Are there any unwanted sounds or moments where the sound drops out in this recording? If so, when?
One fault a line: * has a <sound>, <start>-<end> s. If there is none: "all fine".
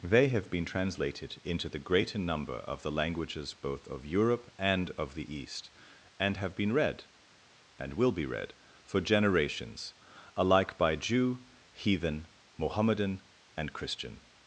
all fine